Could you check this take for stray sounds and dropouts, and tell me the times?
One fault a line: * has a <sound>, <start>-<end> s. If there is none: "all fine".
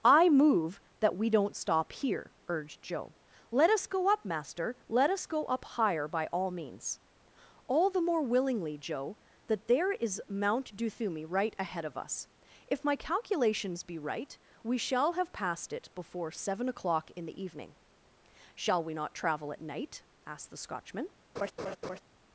* has a laugh, 21.4-22.0 s